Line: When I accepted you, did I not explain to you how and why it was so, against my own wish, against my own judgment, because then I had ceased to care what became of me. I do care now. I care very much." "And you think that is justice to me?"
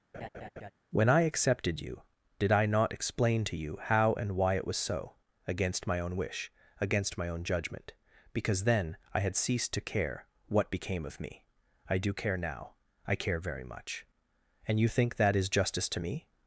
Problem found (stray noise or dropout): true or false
true